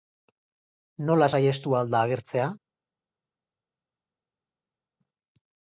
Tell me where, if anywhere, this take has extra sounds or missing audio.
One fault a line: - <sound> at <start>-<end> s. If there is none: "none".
none